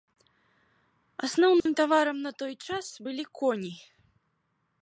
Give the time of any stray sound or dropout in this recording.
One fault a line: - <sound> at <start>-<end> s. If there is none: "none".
- dropout at 1.6-1.7 s